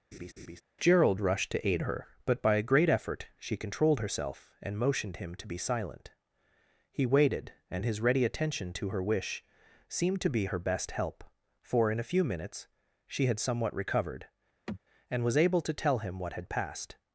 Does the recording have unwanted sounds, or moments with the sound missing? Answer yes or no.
yes